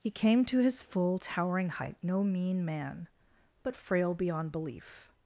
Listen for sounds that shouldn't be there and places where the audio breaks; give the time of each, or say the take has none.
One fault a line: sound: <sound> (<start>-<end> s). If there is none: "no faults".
no faults